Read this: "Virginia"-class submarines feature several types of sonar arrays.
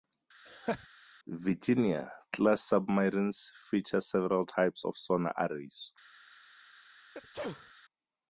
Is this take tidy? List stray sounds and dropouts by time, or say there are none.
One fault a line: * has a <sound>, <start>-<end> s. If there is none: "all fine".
* has a laugh, 0.5-0.9 s
* has a sneeze, 7.1-7.7 s